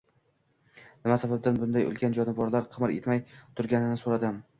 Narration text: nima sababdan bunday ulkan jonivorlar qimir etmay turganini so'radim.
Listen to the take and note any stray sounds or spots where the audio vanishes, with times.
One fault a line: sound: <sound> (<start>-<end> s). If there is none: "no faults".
no faults